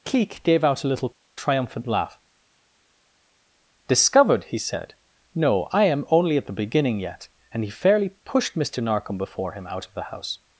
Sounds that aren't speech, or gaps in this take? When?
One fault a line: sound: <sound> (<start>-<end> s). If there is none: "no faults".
no faults